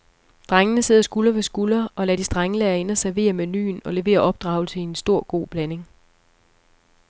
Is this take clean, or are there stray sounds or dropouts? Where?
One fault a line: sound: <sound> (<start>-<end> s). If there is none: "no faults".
no faults